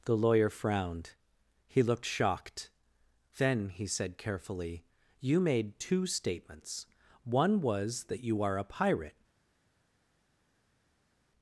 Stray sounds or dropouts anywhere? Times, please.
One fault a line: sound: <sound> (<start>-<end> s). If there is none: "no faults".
no faults